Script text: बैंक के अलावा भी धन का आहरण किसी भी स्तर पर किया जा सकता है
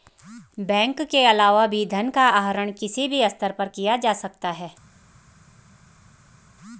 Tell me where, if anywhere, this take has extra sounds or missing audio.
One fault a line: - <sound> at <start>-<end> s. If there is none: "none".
none